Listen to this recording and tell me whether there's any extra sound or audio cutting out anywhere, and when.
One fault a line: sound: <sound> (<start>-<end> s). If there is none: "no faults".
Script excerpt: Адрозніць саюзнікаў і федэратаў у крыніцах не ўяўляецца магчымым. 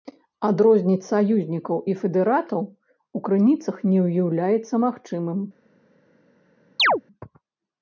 sound: chirp (6.8-7.0 s)